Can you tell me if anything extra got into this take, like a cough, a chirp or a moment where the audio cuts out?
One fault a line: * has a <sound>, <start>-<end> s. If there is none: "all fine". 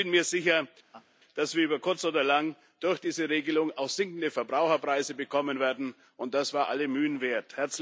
* has a laugh, 0.9-1.1 s